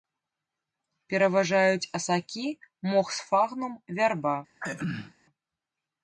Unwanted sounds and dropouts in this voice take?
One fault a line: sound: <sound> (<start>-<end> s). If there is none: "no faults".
sound: throat clearing (4.6-5.1 s)